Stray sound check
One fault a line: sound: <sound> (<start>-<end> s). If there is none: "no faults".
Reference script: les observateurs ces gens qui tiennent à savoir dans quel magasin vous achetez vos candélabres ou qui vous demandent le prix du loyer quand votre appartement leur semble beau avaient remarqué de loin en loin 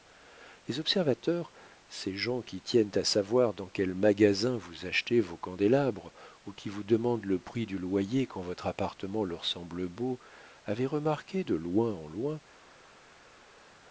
no faults